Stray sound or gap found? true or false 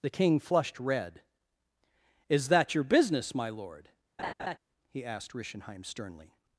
true